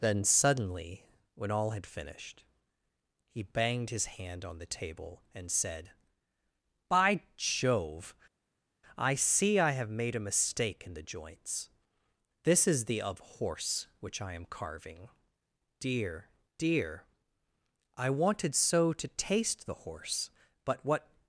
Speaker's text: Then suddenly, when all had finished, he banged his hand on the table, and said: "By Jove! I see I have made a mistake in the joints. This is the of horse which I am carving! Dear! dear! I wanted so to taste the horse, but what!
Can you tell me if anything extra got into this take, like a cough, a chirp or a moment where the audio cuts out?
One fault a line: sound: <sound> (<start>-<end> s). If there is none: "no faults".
no faults